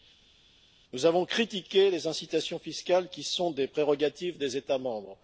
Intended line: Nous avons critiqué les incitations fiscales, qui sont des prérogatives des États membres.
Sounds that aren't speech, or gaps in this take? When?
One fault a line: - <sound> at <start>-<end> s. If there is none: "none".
none